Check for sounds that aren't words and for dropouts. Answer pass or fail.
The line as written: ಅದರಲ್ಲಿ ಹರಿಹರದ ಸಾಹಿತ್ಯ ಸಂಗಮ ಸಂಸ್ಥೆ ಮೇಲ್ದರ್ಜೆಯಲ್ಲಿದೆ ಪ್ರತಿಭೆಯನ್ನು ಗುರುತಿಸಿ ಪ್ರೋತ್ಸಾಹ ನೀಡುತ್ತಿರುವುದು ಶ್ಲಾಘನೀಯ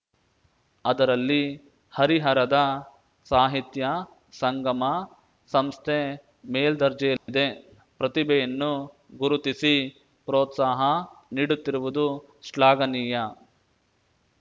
fail